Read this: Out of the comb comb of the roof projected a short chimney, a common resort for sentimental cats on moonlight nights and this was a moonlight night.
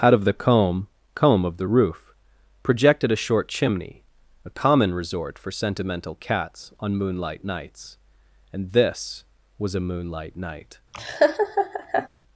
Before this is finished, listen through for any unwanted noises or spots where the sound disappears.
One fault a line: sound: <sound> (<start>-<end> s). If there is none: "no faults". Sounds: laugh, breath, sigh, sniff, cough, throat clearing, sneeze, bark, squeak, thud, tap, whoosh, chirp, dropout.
sound: laugh (10.9-12.1 s)